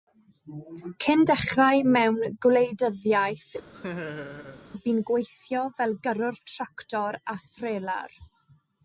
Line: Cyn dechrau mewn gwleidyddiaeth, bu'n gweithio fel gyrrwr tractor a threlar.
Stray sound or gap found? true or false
true